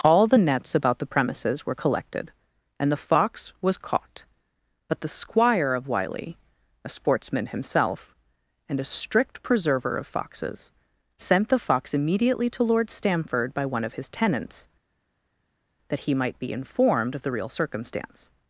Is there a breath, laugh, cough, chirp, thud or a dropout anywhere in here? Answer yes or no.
no